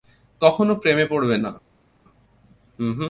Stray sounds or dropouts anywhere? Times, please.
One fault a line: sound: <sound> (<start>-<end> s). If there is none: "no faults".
no faults